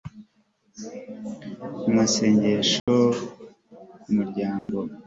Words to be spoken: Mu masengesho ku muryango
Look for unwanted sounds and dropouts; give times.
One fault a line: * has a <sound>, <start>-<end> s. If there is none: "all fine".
* has a dropout, 2.8-2.9 s
* has a dropout, 4.6-4.7 s